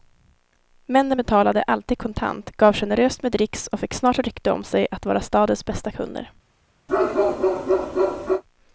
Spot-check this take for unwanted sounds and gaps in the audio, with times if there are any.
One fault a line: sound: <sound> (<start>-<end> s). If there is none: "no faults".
sound: bark (6.9-8.4 s)